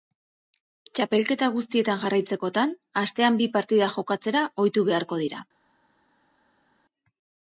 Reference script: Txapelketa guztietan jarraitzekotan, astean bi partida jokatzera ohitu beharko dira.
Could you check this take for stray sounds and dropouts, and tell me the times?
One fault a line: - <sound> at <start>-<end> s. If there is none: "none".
none